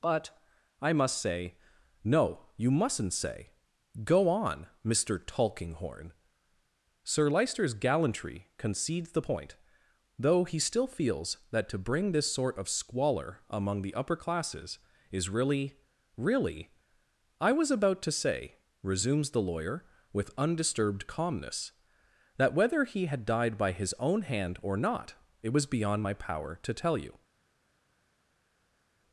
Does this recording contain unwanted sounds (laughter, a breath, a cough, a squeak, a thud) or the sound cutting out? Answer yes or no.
no